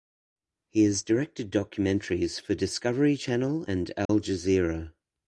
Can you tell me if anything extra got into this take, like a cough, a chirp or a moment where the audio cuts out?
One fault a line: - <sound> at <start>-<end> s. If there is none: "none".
- dropout at 4.1-4.1 s